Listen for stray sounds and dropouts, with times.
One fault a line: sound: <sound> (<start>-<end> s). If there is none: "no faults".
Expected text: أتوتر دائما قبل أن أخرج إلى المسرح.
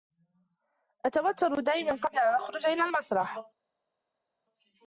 no faults